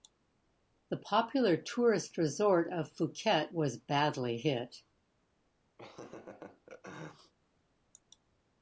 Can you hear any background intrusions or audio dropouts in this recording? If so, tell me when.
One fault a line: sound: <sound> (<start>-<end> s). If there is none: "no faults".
sound: laugh (5.8-7.3 s)